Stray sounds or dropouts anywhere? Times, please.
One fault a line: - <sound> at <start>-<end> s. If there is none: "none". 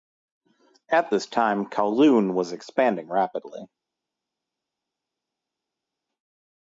none